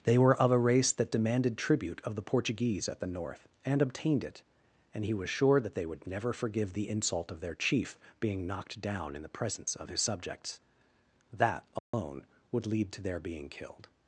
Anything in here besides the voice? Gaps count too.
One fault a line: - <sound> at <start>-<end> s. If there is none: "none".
- dropout at 11.8-11.9 s